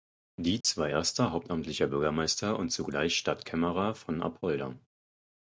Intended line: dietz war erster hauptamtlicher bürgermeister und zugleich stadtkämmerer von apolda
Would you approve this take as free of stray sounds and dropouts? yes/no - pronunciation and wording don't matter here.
no